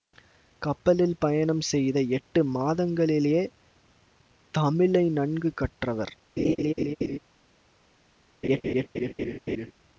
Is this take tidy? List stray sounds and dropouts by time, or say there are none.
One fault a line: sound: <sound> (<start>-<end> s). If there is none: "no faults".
sound: laugh (6.4-7.2 s)
sound: laugh (8.4-9.7 s)